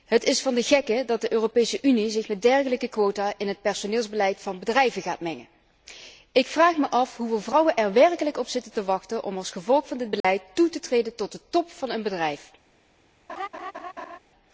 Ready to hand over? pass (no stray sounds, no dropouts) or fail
fail